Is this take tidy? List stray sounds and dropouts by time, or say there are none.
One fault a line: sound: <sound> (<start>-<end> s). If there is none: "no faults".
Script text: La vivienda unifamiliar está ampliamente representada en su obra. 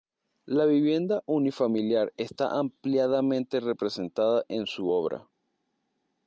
no faults